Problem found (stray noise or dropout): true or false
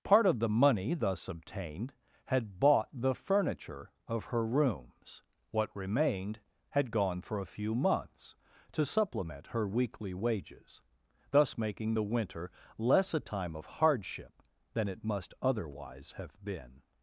false